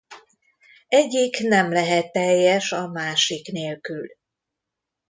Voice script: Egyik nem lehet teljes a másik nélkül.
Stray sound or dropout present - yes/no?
no